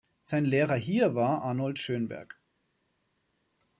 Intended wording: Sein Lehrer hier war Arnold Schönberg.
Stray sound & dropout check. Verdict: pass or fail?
pass